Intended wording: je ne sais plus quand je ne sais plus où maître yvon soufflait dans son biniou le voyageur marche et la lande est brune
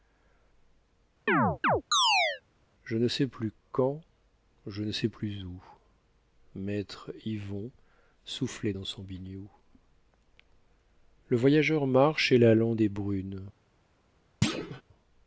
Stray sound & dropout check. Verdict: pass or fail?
fail